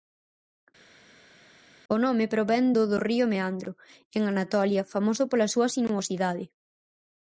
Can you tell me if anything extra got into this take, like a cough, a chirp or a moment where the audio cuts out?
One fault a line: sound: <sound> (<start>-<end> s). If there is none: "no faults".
no faults